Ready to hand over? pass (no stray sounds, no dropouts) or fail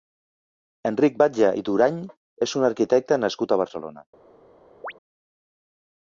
fail